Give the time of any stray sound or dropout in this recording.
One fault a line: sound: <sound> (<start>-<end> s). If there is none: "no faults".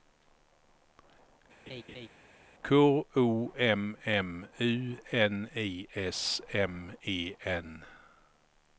sound: laugh (1.7-2.1 s)